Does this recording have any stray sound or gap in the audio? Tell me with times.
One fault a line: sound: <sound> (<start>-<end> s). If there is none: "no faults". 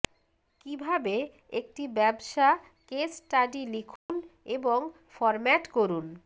sound: dropout (4.0-4.1 s)